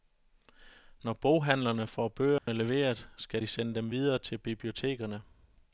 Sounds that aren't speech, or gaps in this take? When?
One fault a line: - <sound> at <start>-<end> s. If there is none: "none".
- dropout at 2.4-2.5 s